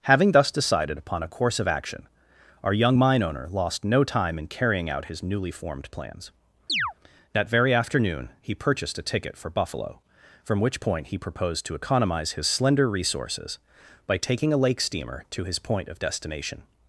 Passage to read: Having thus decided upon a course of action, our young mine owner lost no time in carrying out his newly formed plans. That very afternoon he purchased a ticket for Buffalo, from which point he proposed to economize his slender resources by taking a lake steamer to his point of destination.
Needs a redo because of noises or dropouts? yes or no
yes